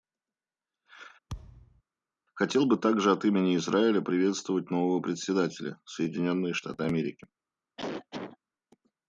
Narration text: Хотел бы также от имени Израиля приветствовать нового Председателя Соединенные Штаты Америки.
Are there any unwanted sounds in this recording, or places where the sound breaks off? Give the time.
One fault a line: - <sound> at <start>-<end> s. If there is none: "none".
- thud at 1.3-1.8 s
- cough at 7.8-8.4 s